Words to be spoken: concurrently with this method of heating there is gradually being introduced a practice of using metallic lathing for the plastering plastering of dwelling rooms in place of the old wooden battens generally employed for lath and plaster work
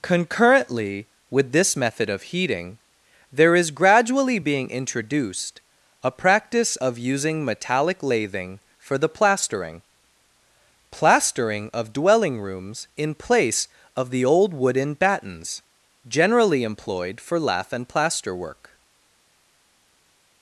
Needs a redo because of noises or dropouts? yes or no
no